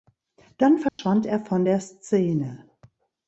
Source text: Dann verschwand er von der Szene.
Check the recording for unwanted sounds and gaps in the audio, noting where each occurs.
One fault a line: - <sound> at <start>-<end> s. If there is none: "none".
- dropout at 0.9-1.0 s